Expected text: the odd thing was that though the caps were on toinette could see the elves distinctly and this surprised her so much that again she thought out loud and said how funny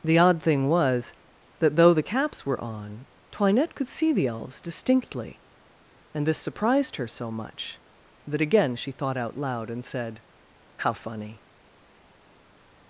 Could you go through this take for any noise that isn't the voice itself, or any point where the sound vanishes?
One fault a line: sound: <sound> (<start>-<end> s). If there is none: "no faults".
no faults